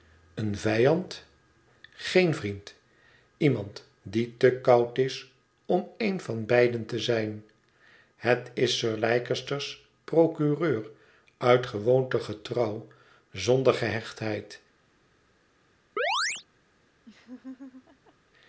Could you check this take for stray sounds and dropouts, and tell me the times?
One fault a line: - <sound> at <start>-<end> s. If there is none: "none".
- chirp at 16.0-16.4 s
- laugh at 17.0-18.1 s